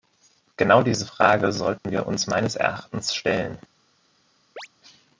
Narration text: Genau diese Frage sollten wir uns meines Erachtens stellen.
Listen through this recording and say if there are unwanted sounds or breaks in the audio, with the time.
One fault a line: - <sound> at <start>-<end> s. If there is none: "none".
- dropout at 1.8-1.8 s
- chirp at 4.6-4.7 s